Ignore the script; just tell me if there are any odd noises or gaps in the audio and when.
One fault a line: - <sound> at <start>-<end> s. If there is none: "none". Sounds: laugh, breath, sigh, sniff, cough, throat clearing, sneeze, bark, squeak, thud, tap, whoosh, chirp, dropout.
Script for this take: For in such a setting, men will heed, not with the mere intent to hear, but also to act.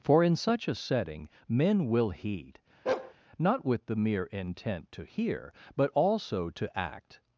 - bark at 2.9-3.1 s